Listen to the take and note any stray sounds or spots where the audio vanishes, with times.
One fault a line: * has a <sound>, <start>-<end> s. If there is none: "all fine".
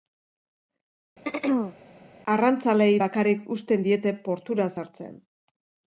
* has a throat clearing, 1.2-1.7 s